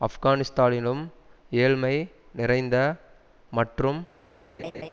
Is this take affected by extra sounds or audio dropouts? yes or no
yes